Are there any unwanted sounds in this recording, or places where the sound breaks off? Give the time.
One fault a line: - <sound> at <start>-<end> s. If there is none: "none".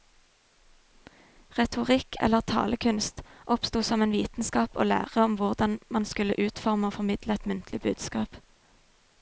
none